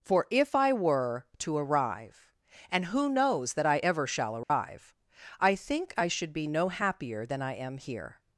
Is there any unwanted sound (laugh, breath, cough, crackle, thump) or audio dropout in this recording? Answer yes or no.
yes